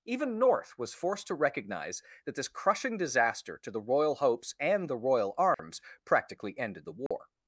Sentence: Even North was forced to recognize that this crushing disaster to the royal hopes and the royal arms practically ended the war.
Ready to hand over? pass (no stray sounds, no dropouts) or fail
fail